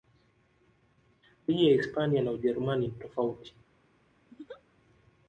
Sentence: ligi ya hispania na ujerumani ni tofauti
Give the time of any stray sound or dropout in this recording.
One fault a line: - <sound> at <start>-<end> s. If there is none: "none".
- laugh at 4.3-4.6 s